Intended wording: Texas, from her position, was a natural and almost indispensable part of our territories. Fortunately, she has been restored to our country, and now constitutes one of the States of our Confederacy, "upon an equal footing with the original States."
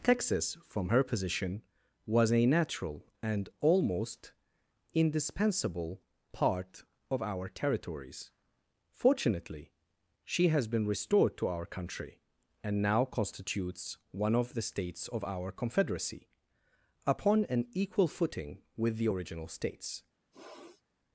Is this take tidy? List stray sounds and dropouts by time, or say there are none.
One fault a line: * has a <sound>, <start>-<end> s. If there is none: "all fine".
* has a sniff, 20.3-20.8 s